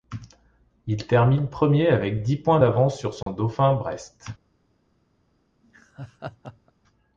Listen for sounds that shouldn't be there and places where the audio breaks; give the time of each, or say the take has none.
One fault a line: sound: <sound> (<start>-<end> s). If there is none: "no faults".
sound: dropout (3.2-3.3 s)
sound: laugh (5.6-6.7 s)